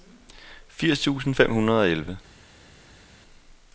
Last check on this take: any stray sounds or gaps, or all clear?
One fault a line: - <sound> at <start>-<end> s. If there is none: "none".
none